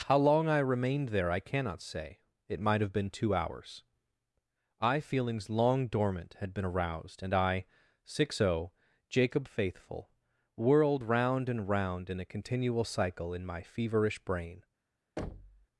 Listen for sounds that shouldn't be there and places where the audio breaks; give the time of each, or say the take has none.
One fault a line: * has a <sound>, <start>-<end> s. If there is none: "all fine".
* has a thud, 15.2-15.7 s